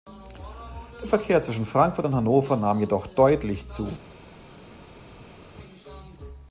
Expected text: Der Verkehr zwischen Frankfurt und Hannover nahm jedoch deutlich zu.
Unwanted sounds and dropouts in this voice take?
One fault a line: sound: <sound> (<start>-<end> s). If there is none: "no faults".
no faults